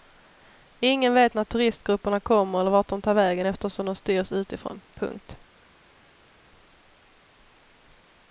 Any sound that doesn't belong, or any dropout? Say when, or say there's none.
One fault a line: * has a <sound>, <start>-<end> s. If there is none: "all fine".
all fine